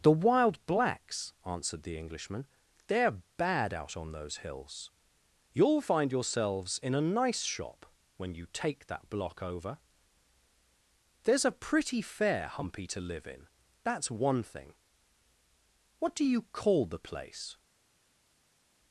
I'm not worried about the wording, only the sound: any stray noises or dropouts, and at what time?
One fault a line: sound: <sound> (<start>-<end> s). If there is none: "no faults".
no faults